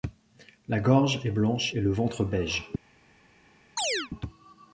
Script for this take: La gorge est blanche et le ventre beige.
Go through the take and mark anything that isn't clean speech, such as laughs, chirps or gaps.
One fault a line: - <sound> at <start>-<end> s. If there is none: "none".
- chirp at 3.8-4.1 s